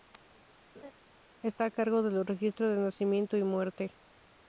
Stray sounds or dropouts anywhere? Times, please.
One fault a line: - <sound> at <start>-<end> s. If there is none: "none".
- laugh at 0.7-0.9 s